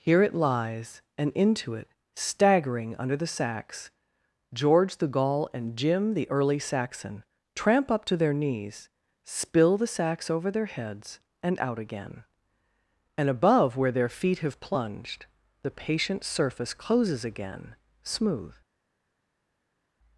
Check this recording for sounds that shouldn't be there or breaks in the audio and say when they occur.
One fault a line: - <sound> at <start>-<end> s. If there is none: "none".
none